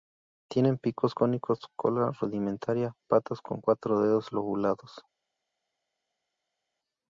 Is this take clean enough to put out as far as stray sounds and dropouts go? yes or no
yes